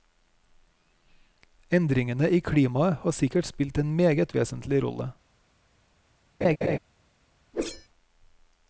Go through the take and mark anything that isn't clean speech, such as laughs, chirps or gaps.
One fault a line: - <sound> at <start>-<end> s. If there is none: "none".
- laugh at 6.4-6.8 s
- whoosh at 7.5-7.9 s